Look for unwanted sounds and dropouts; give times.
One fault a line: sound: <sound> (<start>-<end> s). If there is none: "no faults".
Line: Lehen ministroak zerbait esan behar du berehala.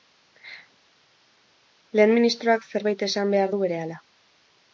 no faults